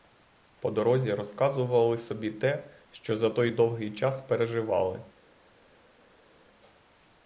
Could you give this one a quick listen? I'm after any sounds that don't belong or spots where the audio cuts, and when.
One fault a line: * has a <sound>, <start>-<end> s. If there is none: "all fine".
all fine